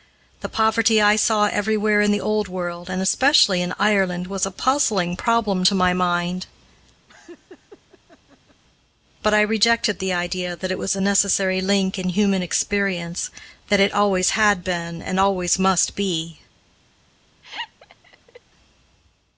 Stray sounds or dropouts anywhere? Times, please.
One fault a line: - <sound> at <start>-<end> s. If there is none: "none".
- laugh at 7.1-8.6 s
- laugh at 17.4-18.4 s